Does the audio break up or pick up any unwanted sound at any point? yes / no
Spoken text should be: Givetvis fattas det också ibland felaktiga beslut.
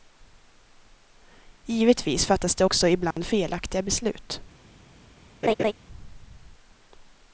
yes